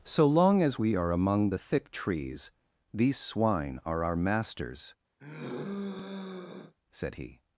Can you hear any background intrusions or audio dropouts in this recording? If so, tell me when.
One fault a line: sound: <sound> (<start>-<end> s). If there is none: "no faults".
sound: sigh (5.2-6.7 s)